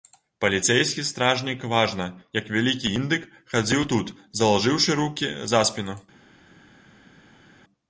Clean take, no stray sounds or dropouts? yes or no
yes